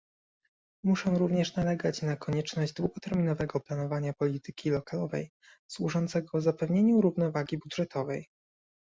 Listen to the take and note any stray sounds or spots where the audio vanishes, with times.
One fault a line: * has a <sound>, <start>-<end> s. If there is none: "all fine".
all fine